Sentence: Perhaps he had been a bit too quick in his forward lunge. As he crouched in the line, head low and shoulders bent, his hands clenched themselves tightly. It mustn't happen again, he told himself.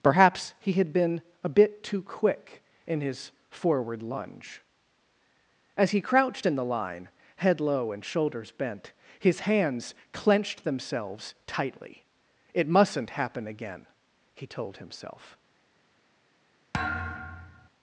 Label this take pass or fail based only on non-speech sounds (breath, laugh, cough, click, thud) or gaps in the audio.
fail